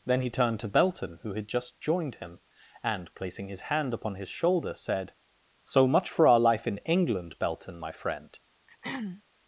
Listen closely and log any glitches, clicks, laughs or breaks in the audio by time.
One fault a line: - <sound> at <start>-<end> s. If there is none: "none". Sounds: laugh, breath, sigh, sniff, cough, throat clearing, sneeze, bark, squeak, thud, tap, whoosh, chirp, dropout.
- throat clearing at 8.7-9.2 s